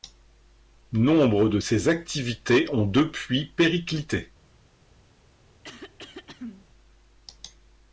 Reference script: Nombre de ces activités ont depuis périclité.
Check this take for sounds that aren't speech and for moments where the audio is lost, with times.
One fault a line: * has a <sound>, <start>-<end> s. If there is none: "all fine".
* has a throat clearing, 5.6-6.7 s